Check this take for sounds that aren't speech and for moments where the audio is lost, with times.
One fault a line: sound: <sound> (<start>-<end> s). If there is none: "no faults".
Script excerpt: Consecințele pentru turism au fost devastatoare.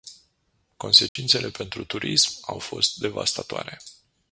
sound: dropout (1.1-1.2 s)